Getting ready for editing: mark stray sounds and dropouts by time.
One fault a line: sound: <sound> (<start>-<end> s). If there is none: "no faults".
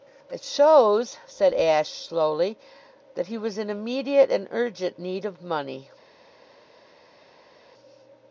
no faults